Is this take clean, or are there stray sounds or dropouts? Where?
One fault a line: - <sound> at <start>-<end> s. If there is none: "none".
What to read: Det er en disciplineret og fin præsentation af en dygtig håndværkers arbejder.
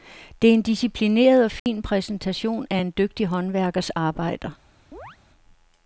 - dropout at 1.6-1.7 s
- chirp at 4.9-5.2 s